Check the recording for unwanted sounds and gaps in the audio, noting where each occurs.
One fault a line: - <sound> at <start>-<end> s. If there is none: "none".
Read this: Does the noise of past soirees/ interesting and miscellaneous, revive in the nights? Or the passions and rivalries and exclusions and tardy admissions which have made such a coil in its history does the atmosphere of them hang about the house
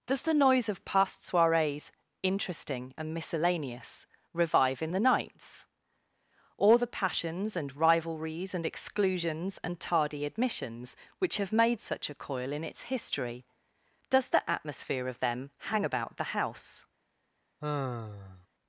- sigh at 17.6-18.5 s